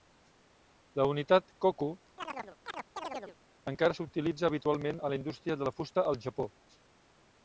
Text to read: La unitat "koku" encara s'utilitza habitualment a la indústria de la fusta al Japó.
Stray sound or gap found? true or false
true